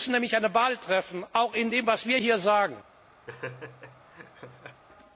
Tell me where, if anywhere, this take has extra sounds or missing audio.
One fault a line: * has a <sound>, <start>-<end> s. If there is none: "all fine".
* has a laugh, 3.3-4.8 s